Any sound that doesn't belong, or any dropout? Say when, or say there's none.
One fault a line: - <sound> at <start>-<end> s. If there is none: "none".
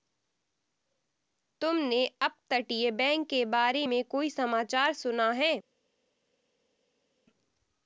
none